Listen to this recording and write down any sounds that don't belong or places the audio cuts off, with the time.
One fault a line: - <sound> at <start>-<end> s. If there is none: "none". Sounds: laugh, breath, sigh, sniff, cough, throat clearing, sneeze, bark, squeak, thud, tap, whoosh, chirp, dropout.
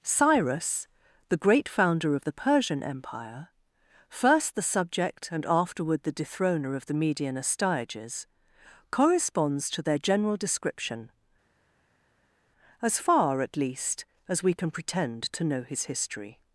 none